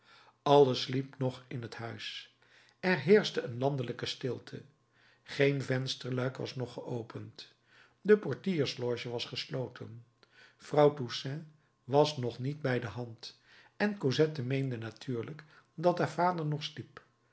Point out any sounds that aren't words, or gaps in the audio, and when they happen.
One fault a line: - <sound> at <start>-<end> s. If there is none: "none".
none